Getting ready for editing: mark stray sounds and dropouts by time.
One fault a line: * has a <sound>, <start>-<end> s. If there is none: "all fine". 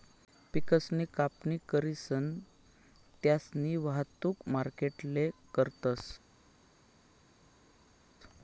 all fine